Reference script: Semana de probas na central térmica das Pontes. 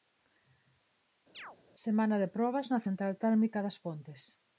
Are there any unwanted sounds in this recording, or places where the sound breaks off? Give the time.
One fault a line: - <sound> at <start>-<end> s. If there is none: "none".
- chirp at 1.3-1.6 s